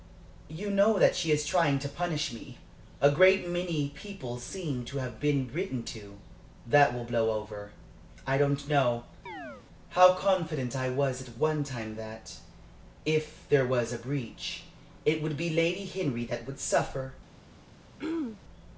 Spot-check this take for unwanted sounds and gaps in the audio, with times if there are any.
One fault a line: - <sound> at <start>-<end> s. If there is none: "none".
- chirp at 9.3-9.7 s
- throat clearing at 18.0-18.4 s